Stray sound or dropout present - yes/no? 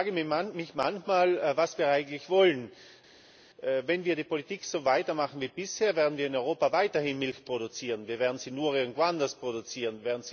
no